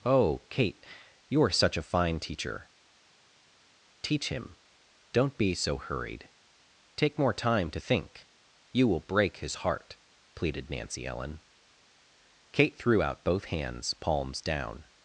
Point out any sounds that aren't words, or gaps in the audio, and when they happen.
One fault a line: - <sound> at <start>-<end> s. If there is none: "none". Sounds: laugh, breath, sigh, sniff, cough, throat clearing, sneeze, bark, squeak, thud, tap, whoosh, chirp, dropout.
none